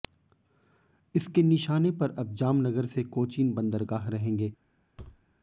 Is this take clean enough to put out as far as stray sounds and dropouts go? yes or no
no